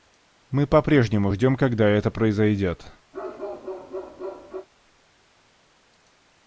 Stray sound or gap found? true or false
true